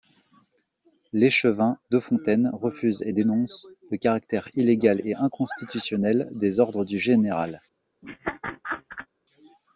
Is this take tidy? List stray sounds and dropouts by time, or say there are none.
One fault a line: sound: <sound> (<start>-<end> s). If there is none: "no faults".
sound: laugh (8.0-9.1 s)